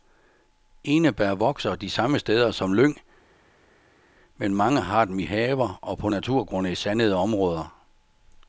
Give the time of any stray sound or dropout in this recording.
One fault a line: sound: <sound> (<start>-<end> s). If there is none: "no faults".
no faults